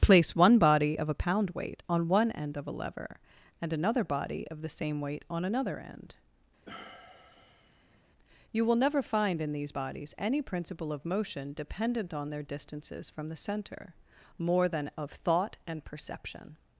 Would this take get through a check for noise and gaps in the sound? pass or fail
fail